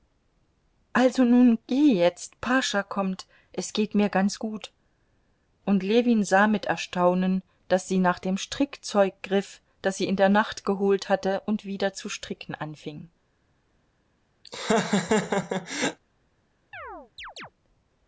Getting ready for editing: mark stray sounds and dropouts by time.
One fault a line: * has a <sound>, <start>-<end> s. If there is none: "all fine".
* has a laugh, 14.4-16.0 s
* has a chirp, 16.7-17.5 s